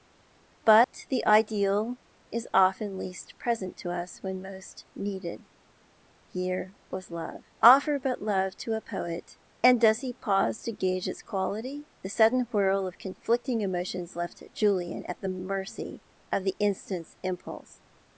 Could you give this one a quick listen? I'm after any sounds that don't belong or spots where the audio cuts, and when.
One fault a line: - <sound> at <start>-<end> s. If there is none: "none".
- dropout at 0.8-0.9 s